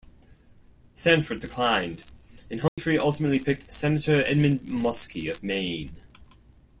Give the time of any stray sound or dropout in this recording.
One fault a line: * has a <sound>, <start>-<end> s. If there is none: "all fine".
* has a dropout, 2.7-2.8 s